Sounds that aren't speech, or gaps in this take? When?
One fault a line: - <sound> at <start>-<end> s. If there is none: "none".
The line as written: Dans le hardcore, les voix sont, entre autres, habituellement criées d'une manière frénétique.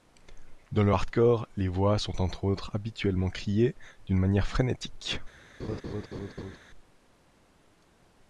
- laugh at 5.6-6.6 s